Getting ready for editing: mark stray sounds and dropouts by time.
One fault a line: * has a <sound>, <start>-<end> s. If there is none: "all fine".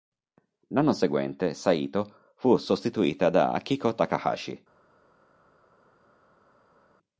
all fine